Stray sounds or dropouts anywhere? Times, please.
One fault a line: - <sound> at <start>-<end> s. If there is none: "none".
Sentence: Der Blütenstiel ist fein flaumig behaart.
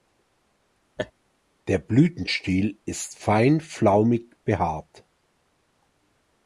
- laugh at 1.0-1.1 s